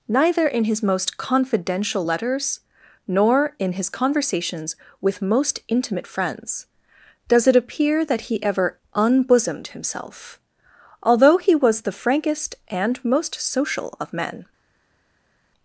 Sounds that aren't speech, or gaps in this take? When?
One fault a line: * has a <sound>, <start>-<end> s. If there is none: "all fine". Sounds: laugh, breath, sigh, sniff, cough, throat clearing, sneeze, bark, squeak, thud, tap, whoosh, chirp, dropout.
all fine